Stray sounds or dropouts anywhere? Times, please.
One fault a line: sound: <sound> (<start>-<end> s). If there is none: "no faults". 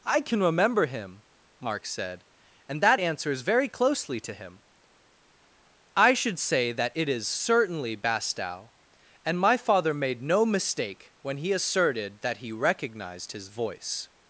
no faults